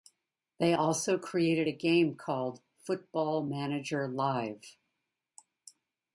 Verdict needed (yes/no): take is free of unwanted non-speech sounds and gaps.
yes